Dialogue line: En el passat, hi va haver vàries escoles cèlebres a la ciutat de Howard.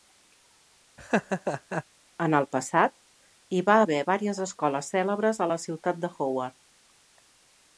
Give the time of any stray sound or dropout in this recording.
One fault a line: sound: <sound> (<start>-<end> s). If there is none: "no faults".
sound: laugh (1.0-1.8 s)